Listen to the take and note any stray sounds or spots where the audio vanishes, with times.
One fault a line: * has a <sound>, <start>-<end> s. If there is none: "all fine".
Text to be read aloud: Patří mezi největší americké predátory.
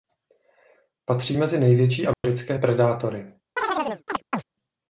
* has a dropout, 2.1-2.2 s
* has a chirp, 3.6-4.4 s